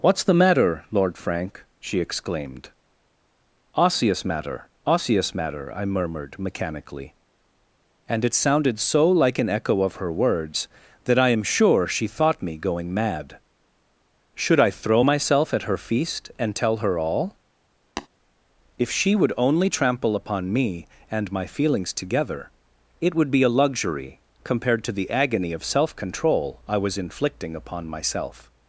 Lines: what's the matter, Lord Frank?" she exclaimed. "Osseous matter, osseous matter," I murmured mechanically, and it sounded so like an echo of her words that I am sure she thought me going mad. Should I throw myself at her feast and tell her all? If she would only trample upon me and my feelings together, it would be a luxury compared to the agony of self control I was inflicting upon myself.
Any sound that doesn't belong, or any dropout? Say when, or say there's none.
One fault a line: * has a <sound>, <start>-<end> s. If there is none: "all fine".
* has a tap, 18.0-18.1 s